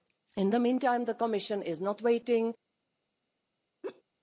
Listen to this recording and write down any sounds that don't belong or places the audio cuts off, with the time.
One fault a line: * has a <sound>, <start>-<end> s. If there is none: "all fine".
* has a laugh, 3.8-4.0 s